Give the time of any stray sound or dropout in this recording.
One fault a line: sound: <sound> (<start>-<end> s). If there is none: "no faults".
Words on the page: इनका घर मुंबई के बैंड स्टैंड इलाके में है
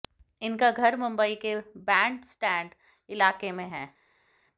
no faults